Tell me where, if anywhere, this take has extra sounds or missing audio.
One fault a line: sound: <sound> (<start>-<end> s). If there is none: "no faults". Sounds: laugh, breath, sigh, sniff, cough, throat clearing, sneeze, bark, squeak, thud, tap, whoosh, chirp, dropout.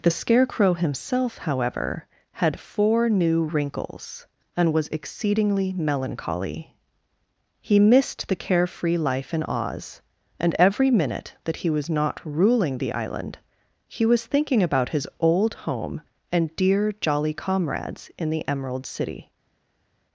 no faults